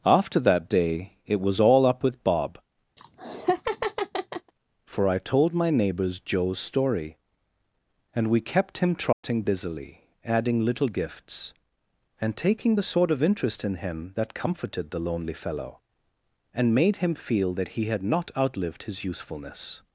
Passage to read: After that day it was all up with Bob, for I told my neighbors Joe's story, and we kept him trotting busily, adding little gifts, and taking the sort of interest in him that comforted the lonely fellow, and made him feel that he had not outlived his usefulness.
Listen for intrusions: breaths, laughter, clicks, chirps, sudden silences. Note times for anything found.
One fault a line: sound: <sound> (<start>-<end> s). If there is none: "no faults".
sound: laugh (3.0-4.5 s)
sound: dropout (9.1-9.2 s)